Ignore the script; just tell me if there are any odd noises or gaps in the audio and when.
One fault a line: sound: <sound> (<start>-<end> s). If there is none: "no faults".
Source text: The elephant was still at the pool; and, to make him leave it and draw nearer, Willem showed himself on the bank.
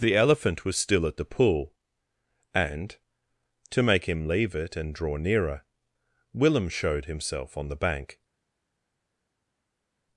no faults